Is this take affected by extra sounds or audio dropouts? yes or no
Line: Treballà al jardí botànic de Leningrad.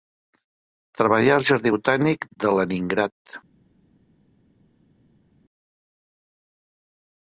no